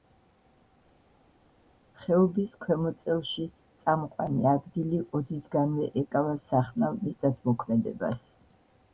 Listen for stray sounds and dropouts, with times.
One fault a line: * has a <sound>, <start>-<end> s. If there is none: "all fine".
all fine